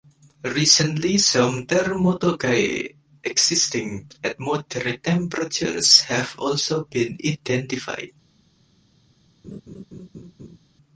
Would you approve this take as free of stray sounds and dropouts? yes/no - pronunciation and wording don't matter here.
no